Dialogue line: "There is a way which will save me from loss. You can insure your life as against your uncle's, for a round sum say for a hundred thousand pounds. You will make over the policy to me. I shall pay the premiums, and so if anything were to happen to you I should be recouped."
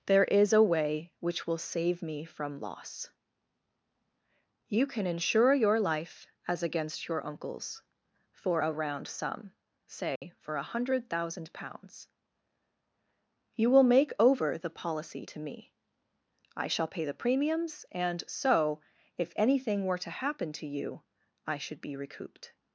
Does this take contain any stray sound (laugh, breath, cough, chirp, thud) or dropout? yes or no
yes